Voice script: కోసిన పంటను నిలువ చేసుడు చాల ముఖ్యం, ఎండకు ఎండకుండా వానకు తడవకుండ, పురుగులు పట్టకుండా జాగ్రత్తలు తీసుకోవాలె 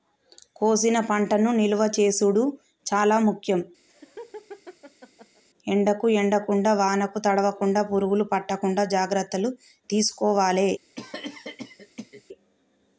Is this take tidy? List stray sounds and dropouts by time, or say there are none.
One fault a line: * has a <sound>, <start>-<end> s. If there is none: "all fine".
* has a laugh, 3.9-5.4 s
* has a cough, 10.9-12.2 s